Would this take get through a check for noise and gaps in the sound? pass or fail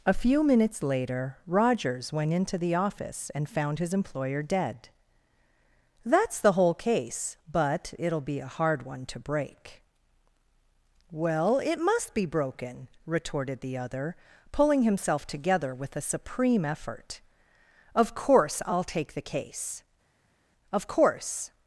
pass